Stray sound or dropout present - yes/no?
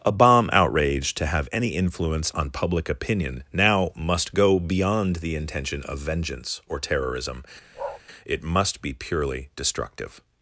yes